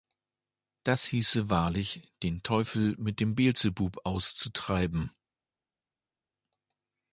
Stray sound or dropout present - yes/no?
no